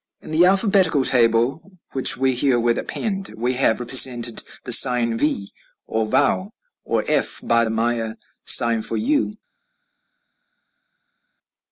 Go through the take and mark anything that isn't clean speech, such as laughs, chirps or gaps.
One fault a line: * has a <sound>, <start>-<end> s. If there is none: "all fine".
all fine